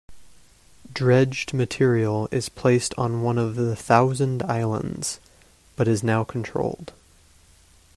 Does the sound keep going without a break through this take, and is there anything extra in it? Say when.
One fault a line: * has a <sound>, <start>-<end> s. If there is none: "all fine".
all fine